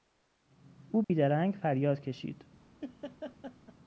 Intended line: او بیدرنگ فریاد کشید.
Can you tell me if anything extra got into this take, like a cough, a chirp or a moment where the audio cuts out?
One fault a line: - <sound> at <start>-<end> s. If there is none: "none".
- dropout at 1.0-1.1 s
- laugh at 2.8-3.7 s